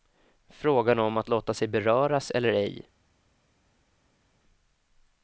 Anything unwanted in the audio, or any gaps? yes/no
no